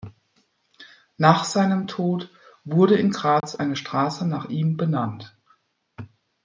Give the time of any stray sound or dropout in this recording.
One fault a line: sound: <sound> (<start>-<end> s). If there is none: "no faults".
sound: dropout (3.4-3.4 s)